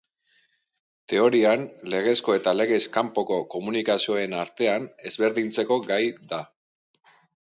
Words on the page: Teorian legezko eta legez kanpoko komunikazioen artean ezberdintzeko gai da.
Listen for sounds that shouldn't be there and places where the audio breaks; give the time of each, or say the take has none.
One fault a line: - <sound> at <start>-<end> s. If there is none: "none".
none